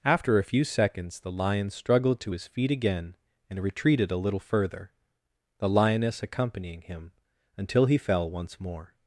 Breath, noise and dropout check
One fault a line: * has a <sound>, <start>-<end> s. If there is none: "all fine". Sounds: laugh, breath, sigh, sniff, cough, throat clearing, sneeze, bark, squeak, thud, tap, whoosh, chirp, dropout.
all fine